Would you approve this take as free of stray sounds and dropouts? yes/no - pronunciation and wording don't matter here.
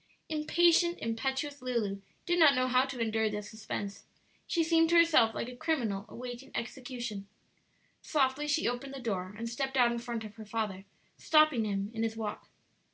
yes